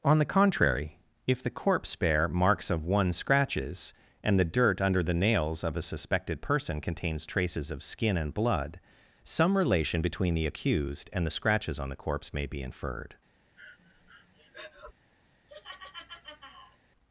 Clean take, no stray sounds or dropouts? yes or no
no